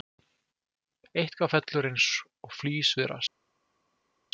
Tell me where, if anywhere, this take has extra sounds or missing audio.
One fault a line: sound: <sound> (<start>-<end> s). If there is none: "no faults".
no faults